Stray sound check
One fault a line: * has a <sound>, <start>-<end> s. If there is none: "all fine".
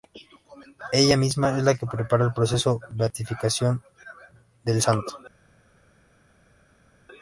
all fine